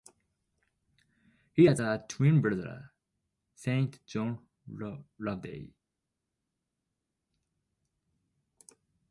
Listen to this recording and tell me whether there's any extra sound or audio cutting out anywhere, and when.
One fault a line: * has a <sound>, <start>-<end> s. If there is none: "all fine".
all fine